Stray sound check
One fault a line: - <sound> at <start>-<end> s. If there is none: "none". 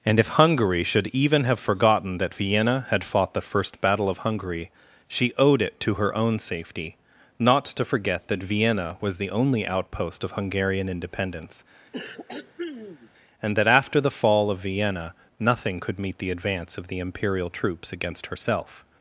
- throat clearing at 11.9-13.1 s